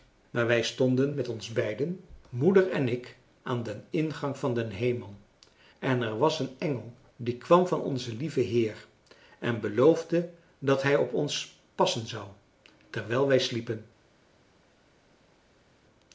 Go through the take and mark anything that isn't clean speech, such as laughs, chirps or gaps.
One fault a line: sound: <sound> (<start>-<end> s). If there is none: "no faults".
no faults